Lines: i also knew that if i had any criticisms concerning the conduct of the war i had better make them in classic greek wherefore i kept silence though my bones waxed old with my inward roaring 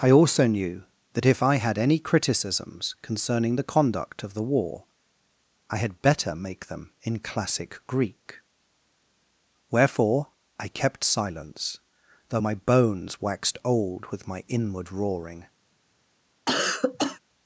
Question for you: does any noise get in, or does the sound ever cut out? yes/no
yes